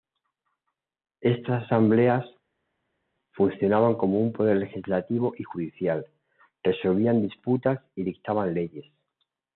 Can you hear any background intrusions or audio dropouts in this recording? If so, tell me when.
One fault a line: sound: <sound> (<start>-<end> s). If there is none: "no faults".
no faults